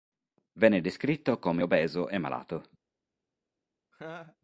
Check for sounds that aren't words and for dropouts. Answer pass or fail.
fail